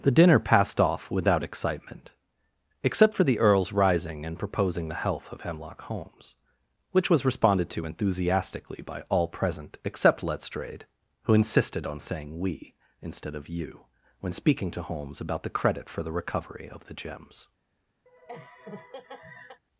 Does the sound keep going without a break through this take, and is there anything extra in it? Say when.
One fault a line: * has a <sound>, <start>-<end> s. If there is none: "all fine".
* has a laugh, 18.1-19.6 s